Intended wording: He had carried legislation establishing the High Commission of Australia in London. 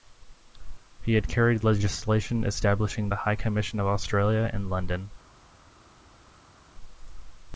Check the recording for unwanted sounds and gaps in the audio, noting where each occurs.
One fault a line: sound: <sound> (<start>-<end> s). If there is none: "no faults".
no faults